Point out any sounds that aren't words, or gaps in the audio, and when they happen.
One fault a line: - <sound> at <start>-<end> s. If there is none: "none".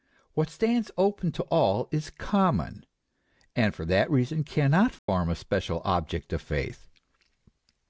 - dropout at 5.0-5.1 s